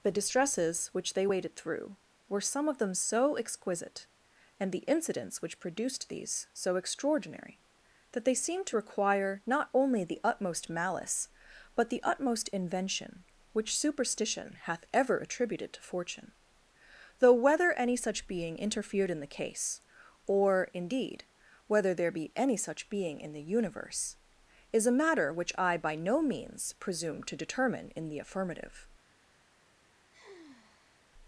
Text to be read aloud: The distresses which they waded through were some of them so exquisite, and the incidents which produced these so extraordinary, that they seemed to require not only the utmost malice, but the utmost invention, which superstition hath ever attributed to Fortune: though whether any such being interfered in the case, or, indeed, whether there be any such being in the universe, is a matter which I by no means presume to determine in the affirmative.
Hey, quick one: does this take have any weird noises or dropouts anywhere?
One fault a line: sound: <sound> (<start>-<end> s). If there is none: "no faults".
sound: sigh (30.1-31.1 s)